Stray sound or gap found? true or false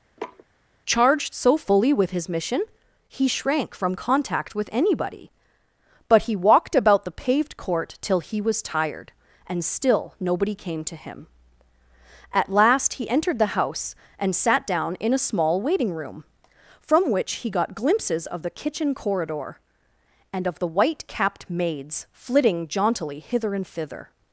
true